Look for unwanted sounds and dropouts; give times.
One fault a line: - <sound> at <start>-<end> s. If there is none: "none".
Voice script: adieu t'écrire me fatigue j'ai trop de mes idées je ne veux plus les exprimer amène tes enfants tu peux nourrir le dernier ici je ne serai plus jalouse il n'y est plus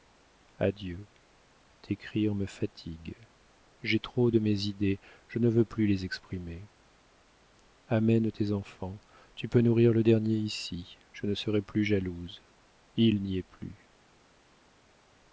none